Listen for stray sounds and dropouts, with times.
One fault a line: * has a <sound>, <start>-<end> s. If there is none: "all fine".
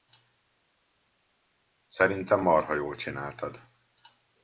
all fine